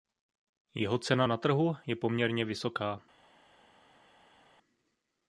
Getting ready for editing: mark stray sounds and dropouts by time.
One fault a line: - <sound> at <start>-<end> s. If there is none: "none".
none